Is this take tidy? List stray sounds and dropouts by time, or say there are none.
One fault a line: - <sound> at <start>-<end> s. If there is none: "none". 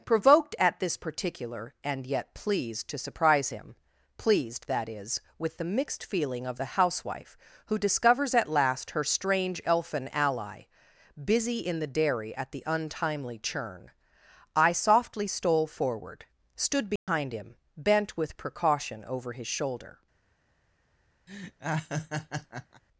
- dropout at 17.0-17.1 s
- laugh at 21.3-22.8 s